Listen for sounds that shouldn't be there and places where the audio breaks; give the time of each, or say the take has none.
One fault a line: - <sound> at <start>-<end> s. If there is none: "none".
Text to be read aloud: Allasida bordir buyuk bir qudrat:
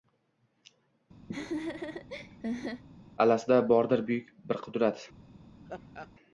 - laugh at 1.3-2.8 s
- laugh at 5.7-6.1 s